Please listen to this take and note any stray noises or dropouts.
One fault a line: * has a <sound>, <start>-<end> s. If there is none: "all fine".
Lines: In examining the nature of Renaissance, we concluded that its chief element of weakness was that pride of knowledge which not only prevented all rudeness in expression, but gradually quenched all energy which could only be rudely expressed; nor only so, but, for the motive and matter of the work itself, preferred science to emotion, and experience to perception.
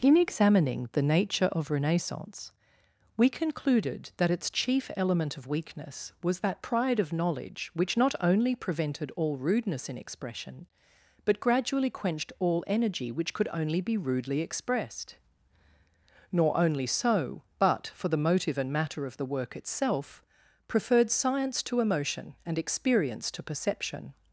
all fine